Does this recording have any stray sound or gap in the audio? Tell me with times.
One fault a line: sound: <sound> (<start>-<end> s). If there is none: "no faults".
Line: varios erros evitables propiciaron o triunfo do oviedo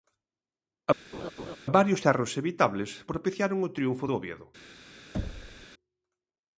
sound: laugh (1.1-1.6 s)
sound: thud (5.1-5.7 s)